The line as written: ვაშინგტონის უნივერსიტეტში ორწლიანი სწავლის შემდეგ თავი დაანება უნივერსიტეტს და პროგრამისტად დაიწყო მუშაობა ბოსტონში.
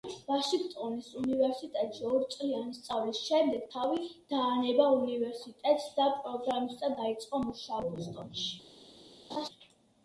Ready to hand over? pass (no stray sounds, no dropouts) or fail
fail